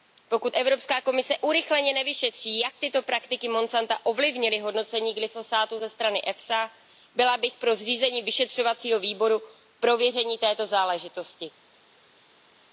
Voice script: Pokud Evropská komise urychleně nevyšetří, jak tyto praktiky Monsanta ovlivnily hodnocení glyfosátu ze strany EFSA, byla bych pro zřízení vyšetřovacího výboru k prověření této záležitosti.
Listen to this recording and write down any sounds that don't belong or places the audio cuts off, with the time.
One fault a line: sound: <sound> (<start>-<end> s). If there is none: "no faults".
no faults